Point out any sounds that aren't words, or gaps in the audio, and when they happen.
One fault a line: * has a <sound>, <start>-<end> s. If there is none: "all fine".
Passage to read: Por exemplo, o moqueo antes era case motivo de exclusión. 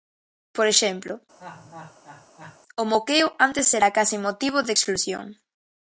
* has a laugh, 1.4-2.6 s